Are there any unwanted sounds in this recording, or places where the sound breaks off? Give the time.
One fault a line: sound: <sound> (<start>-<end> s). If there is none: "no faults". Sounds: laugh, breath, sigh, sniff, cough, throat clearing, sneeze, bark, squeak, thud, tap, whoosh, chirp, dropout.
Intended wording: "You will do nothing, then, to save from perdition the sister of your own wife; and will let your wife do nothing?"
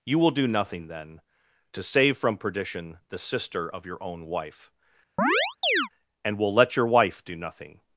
sound: chirp (5.2-5.9 s)